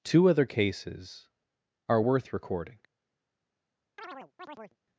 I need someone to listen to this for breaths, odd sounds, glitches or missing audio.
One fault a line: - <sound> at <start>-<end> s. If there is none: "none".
- chirp at 4.0-4.8 s